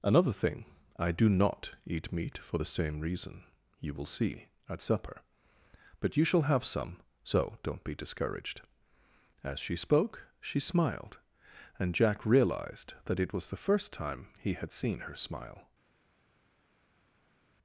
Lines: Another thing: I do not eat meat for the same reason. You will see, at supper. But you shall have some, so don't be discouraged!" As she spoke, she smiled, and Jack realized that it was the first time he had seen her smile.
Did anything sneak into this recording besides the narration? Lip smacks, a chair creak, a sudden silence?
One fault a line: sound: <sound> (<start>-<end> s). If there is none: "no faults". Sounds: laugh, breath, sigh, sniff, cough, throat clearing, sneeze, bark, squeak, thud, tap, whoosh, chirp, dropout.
no faults